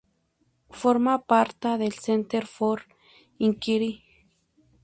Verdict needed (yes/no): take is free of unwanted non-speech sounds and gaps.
yes